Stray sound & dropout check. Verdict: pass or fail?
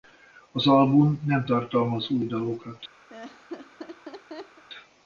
fail